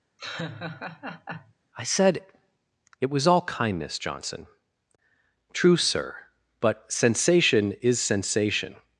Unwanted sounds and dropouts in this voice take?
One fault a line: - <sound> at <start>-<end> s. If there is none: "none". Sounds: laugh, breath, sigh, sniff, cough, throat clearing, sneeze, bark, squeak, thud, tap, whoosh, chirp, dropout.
- laugh at 0.2-1.5 s